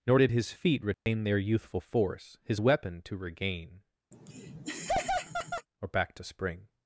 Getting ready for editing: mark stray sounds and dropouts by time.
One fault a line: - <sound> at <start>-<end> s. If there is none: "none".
- dropout at 0.9-1.1 s
- laugh at 4.1-5.7 s